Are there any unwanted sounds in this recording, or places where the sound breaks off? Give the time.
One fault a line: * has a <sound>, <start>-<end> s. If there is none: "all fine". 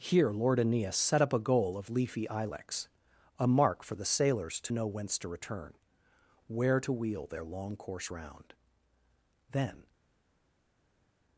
all fine